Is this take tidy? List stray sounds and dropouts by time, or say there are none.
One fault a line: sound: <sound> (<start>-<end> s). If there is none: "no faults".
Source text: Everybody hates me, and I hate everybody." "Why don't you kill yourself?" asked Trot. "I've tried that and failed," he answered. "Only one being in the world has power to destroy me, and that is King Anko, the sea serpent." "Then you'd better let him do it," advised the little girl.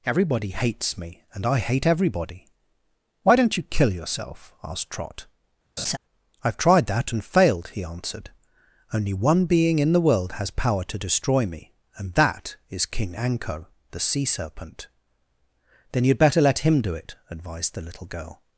sound: laugh (5.8-6.0 s)